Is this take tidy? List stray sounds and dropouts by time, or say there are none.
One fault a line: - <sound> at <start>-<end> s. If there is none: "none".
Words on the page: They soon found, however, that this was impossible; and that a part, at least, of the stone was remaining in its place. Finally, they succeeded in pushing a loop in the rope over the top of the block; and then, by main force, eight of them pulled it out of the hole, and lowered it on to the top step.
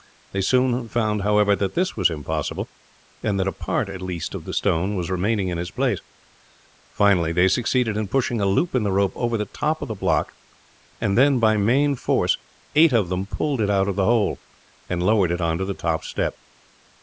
none